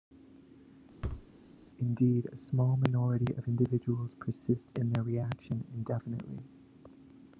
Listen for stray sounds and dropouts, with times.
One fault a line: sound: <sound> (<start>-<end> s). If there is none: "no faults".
sound: thud (1.0-1.3 s)